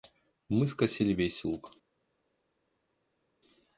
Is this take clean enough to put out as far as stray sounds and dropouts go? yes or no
yes